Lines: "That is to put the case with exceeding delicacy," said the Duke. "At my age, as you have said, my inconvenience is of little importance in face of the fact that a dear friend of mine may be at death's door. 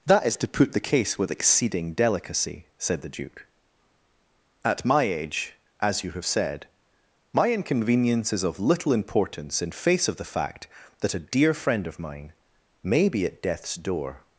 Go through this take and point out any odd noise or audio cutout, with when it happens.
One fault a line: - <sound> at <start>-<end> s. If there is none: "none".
none